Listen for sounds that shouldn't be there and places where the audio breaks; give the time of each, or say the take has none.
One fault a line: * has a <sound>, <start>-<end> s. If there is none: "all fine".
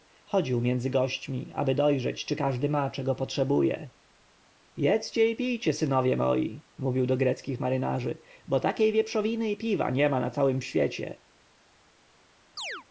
* has a chirp, 12.6-12.9 s